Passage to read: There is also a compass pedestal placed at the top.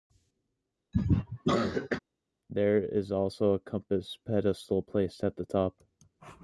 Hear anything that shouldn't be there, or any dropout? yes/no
yes